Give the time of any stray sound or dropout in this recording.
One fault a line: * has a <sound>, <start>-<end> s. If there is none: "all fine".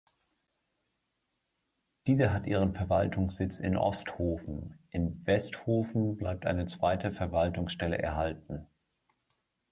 all fine